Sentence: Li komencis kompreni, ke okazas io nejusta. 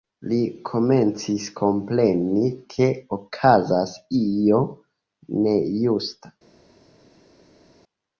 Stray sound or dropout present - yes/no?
no